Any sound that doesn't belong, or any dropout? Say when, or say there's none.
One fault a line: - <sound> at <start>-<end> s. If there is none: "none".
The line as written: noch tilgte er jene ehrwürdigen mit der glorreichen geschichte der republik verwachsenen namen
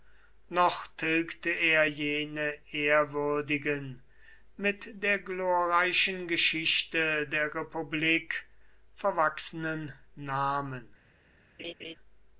- laugh at 11.6-12.0 s